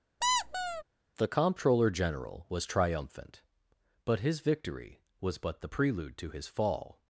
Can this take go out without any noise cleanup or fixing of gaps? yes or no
no